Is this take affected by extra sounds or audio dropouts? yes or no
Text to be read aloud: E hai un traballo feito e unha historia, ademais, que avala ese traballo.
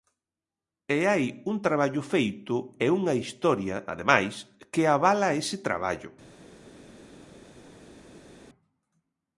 no